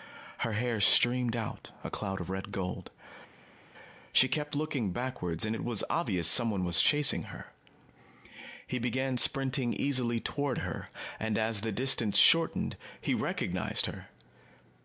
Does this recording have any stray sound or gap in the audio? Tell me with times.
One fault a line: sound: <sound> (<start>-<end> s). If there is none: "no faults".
no faults